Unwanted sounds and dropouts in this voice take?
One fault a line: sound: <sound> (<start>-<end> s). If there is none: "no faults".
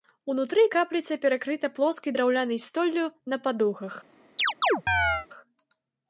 sound: chirp (4.4-5.3 s)